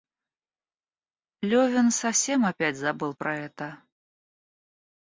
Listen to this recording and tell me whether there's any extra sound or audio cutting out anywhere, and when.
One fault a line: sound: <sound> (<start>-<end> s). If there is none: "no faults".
no faults